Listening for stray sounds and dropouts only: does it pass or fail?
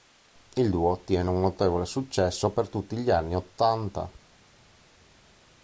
pass